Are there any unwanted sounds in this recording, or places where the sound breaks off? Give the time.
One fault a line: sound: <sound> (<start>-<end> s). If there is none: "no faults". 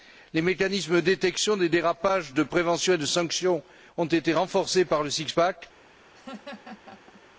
sound: laugh (6.1-7.2 s)